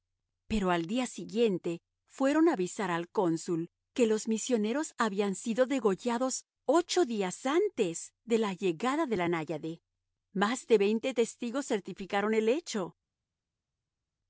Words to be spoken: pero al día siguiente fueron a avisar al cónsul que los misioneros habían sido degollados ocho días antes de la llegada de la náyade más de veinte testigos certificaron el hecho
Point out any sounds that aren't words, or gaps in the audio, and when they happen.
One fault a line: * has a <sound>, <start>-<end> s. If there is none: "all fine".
all fine